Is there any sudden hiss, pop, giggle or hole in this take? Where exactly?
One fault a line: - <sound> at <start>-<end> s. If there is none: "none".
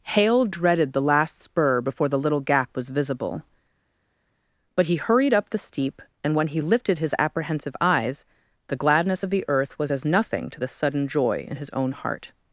none